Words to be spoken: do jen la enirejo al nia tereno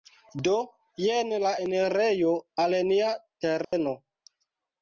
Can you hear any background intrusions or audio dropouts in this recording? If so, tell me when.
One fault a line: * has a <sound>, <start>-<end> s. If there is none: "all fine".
* has a dropout, 3.6-3.7 s